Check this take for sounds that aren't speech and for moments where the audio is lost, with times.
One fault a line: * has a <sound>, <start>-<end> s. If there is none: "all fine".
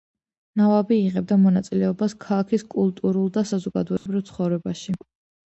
* has a dropout, 4.0-4.1 s